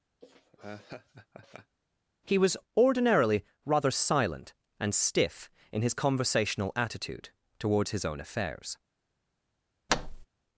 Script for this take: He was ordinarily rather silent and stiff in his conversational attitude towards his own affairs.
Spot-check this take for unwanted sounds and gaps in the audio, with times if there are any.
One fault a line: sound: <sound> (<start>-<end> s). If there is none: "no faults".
sound: laugh (0.2-1.8 s)
sound: thud (9.9-10.3 s)